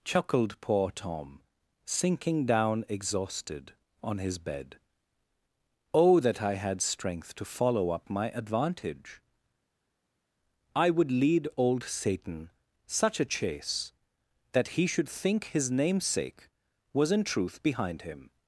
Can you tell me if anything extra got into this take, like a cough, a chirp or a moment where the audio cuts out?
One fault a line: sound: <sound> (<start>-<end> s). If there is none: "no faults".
no faults